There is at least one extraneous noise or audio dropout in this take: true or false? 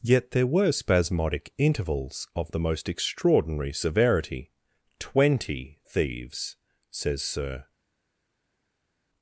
false